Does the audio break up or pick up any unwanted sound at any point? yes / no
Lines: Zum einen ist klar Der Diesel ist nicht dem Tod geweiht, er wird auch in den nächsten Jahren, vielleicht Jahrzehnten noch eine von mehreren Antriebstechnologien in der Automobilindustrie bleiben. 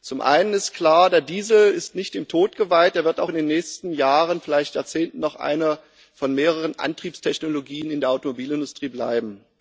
no